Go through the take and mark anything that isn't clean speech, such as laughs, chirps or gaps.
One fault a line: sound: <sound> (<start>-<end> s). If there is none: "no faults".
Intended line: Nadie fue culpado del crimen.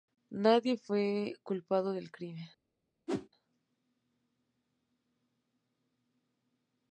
sound: whoosh (3.1-3.3 s)